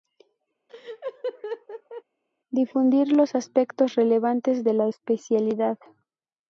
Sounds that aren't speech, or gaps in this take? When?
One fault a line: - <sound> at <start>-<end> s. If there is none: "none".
- laugh at 0.7-2.0 s